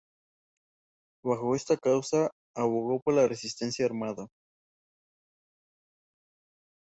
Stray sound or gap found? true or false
false